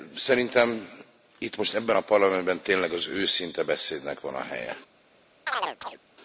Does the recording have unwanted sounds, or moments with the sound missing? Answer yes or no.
yes